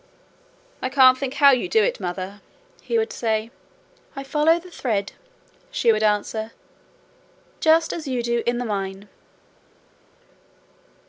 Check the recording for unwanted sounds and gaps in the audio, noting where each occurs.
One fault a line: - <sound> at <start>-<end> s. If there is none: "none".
none